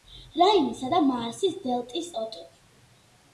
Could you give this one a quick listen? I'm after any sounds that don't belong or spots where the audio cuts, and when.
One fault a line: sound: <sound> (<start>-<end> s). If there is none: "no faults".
no faults